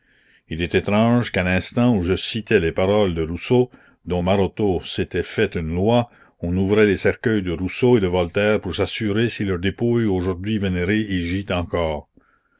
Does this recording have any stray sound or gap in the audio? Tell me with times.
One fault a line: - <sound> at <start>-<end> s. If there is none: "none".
none